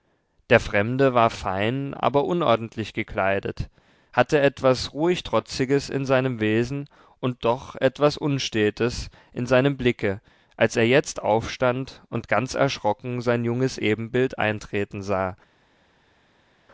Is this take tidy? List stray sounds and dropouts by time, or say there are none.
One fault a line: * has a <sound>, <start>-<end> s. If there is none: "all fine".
all fine